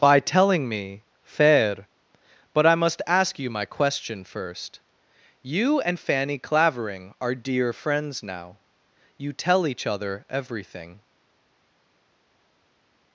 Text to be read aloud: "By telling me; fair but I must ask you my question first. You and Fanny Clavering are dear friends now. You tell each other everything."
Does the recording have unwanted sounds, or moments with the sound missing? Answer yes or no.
no